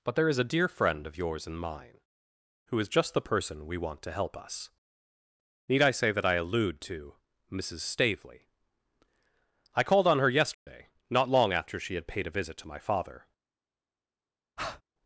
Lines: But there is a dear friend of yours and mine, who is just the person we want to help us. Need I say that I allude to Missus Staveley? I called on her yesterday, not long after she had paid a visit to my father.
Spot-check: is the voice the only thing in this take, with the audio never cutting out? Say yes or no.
no